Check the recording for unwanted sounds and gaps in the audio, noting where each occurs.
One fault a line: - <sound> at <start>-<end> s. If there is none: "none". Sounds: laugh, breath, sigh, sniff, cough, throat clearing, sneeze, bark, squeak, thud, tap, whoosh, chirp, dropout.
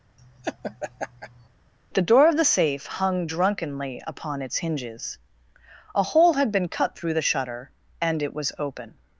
- laugh at 0.2-1.5 s